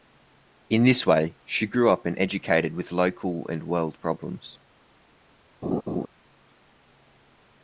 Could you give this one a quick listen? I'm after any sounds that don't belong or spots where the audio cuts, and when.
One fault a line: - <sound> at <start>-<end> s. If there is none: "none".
- laugh at 5.6-6.1 s